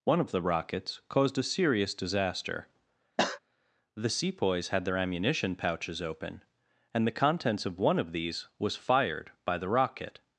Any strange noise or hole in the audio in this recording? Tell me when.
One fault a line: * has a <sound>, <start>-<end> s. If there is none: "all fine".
* has a cough, 3.2-3.4 s